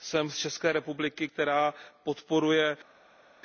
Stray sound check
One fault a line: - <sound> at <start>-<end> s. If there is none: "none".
none